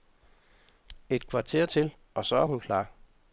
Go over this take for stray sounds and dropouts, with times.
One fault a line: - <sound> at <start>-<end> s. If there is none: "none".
none